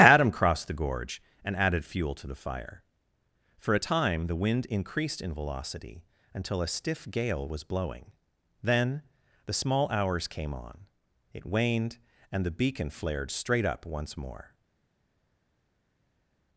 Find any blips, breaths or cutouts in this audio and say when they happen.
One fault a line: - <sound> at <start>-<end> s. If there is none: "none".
none